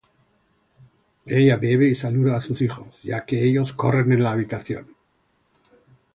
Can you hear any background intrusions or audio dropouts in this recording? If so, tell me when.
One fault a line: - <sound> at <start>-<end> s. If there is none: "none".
none